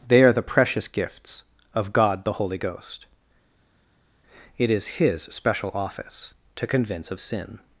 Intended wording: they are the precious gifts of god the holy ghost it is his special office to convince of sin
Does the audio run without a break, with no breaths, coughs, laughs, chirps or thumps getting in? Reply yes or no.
yes